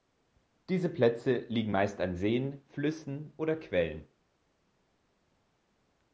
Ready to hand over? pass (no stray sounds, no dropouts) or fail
pass